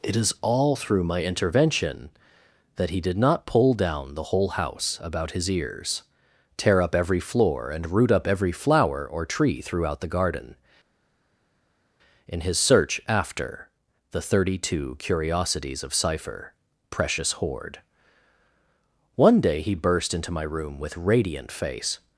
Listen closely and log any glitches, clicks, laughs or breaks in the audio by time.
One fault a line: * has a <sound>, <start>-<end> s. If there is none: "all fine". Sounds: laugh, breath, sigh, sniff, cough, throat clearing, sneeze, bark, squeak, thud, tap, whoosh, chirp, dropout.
all fine